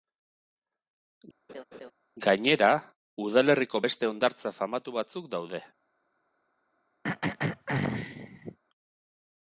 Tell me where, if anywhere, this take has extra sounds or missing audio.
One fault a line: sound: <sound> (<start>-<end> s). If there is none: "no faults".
sound: laugh (1.5-1.9 s)
sound: throat clearing (7.0-8.6 s)